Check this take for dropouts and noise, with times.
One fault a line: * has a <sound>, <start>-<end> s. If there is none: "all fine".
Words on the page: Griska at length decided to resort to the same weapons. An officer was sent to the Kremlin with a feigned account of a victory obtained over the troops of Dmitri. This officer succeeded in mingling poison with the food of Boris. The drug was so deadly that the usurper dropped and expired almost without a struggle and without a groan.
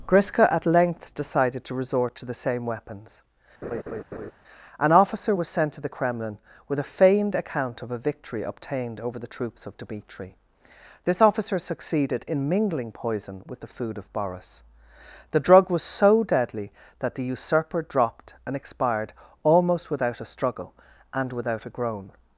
* has a laugh, 3.6-4.3 s